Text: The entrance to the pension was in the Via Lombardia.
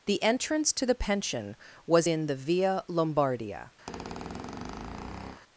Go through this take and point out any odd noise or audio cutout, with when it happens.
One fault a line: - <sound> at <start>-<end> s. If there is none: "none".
- squeak at 3.9-5.4 s